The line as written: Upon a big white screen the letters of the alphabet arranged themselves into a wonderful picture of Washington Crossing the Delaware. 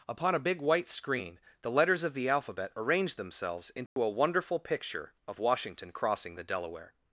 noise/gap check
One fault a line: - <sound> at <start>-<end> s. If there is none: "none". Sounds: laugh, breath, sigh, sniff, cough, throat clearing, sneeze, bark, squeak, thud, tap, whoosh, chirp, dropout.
- dropout at 3.9-4.0 s